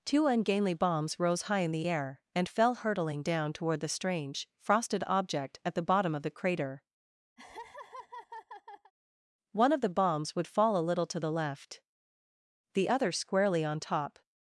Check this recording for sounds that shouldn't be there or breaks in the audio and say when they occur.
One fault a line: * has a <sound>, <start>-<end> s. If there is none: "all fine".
* has a laugh, 7.4-8.9 s